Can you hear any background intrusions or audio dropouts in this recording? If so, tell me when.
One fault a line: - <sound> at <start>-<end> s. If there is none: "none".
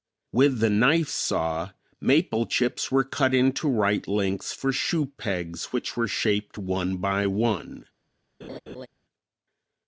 - laugh at 8.4-8.9 s